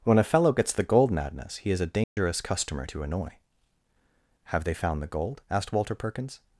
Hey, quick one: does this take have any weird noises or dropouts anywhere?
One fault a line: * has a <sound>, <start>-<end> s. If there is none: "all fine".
* has a dropout, 2.0-2.2 s